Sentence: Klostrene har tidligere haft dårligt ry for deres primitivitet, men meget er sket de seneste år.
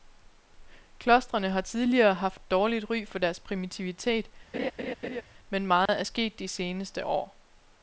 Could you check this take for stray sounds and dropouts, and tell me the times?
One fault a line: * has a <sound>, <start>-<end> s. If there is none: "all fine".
* has a laugh, 4.5-5.2 s
* has a dropout, 5.9-5.9 s